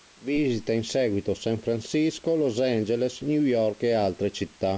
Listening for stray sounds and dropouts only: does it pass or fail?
pass